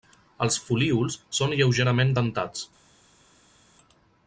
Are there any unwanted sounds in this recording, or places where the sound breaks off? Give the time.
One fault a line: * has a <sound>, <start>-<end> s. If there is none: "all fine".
all fine